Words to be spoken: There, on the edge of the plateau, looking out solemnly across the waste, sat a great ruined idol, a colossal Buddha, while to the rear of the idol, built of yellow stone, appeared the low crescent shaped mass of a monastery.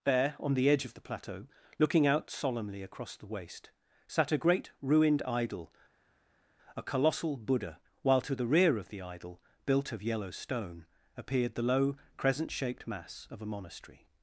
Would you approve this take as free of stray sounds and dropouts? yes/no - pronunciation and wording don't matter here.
yes